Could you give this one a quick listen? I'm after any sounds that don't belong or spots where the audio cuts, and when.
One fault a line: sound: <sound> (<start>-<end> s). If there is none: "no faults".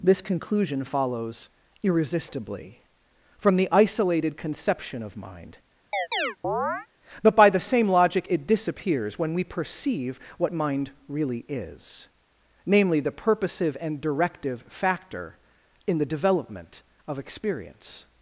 sound: chirp (5.9-6.9 s)